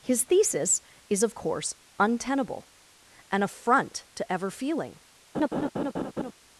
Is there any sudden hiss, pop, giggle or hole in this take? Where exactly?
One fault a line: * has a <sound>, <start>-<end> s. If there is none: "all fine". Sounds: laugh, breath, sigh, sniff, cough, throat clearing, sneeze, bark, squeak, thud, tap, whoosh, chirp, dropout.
* has a laugh, 5.3-6.3 s